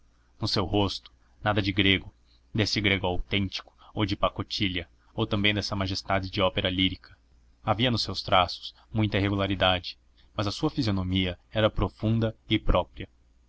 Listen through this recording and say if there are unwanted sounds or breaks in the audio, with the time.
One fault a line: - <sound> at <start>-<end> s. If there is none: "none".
none